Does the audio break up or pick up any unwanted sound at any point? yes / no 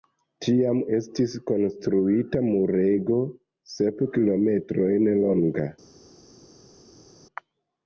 no